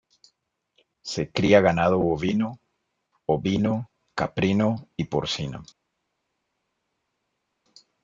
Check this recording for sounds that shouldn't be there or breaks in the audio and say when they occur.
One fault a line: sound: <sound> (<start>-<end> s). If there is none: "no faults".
no faults